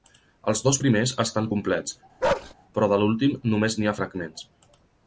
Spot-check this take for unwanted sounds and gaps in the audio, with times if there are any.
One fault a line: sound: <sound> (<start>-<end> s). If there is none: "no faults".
sound: bark (2.2-2.5 s)